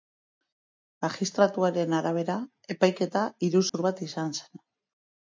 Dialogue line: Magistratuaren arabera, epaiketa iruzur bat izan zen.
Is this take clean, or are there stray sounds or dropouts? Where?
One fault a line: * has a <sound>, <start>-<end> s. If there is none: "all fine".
* has a dropout, 3.7-3.7 s